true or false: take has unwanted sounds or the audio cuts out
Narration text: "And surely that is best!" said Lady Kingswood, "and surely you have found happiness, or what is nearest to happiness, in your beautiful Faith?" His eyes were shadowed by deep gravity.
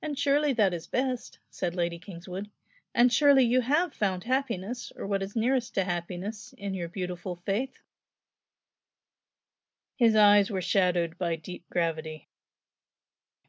false